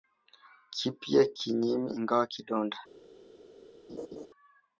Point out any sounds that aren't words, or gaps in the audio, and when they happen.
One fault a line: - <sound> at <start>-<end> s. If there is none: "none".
- laugh at 3.9-4.3 s